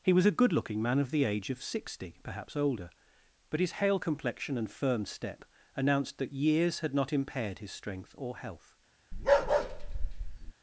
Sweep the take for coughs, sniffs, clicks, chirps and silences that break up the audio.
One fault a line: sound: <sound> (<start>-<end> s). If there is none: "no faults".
sound: bark (9.1-10.5 s)